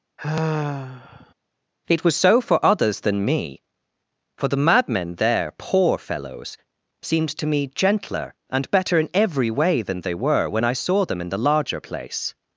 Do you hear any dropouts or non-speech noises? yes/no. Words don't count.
yes